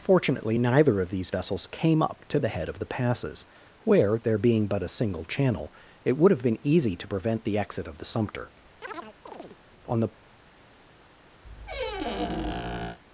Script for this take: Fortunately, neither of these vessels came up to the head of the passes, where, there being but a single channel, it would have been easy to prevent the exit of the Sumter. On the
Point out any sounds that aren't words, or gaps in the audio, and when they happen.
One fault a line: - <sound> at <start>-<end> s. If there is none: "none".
- chirp at 8.8-9.6 s
- squeak at 11.4-13.0 s